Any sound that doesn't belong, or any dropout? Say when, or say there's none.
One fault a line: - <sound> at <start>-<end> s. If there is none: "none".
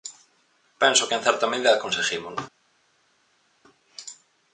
none